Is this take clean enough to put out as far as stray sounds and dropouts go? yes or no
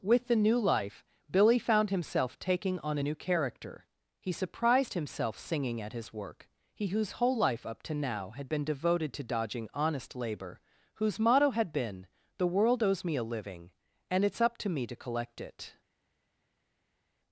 yes